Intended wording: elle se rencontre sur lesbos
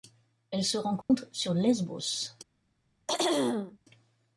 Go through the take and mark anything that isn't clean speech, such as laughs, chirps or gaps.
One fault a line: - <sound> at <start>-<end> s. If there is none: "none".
- dropout at 1.0-1.1 s
- throat clearing at 3.1-3.8 s